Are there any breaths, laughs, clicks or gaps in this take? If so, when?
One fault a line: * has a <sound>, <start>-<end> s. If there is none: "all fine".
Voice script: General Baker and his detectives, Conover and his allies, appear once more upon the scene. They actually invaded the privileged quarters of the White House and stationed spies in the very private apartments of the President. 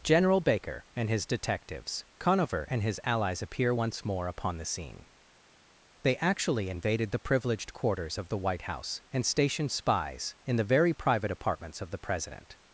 all fine